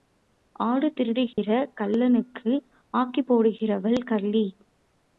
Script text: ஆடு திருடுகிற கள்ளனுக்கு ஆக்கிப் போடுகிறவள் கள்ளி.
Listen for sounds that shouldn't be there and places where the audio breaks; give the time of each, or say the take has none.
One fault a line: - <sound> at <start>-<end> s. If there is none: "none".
- dropout at 1.3-1.4 s